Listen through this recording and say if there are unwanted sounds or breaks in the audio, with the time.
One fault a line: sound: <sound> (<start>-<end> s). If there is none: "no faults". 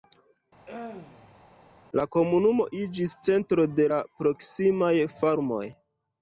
sound: throat clearing (0.7-1.4 s)